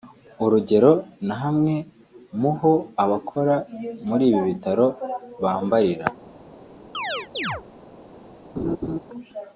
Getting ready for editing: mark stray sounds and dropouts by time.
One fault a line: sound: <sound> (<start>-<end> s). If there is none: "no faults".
sound: chirp (6.9-7.6 s)
sound: laugh (8.6-9.0 s)